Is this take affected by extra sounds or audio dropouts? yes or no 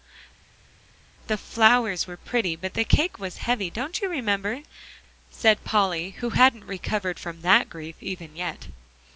no